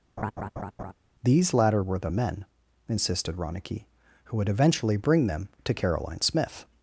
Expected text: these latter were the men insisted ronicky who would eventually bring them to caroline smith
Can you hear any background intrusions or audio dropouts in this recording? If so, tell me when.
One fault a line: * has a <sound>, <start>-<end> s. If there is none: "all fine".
* has a laugh, 0.2-0.9 s